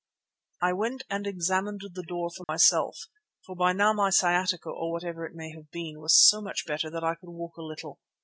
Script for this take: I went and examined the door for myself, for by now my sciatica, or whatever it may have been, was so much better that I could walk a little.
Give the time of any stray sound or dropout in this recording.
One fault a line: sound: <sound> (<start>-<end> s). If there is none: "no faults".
sound: dropout (2.4-2.5 s)